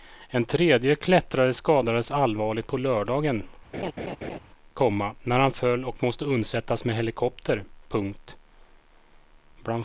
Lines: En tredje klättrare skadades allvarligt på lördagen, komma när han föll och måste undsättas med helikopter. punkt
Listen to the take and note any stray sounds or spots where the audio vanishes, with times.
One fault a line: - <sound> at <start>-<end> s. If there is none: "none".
- laugh at 3.7-4.4 s